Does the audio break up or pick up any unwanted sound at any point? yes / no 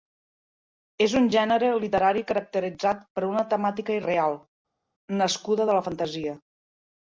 no